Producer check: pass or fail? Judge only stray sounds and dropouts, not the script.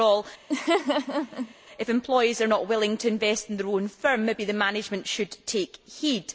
fail